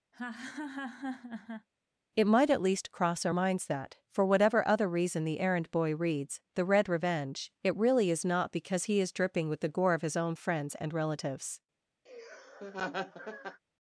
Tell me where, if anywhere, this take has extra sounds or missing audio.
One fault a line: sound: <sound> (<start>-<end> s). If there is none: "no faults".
sound: laugh (0.1-1.7 s)
sound: laugh (12.1-13.6 s)